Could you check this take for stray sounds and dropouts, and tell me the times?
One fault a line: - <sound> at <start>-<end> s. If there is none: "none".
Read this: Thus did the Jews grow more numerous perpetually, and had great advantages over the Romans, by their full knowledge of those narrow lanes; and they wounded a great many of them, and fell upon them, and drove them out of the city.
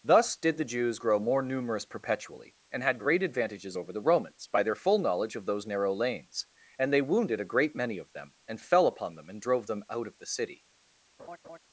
- laugh at 11.2-11.6 s